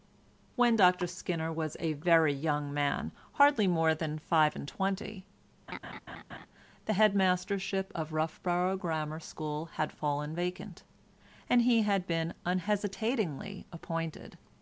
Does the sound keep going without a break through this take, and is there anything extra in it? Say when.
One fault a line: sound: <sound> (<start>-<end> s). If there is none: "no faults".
sound: laugh (5.7-6.5 s)